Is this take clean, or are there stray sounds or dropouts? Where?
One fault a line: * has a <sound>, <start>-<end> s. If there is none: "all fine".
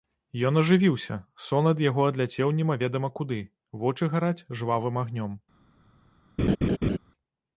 * has a laugh, 6.4-7.0 s